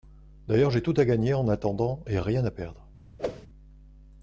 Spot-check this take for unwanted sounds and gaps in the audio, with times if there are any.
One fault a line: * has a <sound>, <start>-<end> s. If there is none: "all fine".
* has a whoosh, 3.2-3.5 s